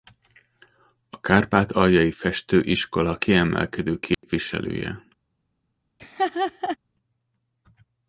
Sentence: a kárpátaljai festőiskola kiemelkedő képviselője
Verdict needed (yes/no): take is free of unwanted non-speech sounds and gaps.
no